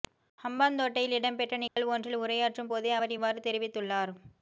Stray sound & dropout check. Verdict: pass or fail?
fail